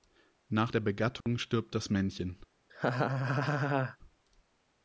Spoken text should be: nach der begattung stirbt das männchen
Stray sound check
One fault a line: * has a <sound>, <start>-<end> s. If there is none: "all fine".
* has a dropout, 1.2-1.3 s
* has a laugh, 2.7-4.0 s